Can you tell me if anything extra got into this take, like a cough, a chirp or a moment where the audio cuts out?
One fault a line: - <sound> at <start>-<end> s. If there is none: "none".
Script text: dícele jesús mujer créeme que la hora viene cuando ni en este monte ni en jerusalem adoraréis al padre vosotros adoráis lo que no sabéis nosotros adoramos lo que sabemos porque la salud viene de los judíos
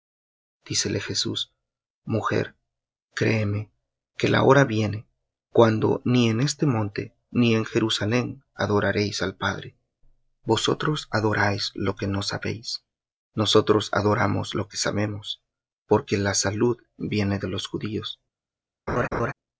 - laugh at 18.9-19.3 s